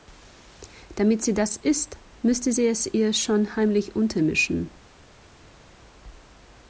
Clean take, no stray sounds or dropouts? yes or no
yes